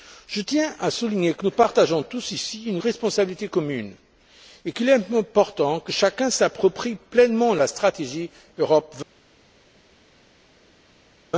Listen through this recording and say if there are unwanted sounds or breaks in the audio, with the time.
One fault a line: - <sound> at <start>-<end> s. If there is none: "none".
none